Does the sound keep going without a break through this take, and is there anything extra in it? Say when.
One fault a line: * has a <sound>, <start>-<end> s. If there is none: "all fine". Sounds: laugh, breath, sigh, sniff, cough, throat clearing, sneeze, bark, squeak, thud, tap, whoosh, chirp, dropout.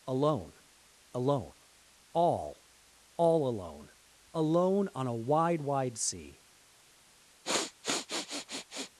* has a sniff, 7.4-8.9 s